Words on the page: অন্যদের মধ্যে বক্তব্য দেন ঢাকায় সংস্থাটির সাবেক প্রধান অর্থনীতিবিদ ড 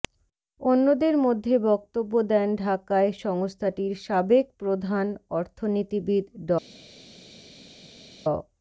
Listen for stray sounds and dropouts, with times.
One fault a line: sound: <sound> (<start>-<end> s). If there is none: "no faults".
no faults